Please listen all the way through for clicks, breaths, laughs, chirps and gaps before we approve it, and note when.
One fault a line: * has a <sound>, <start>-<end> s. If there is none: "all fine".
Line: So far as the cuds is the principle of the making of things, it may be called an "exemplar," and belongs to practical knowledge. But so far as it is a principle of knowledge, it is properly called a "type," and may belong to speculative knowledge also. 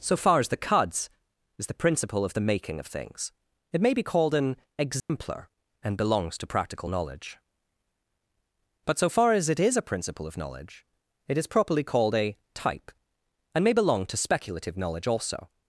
* has a dropout, 5.0-5.1 s